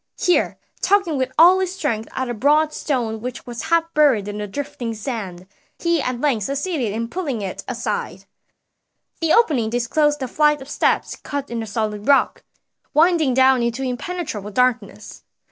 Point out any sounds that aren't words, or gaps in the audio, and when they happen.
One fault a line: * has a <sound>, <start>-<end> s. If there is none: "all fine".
all fine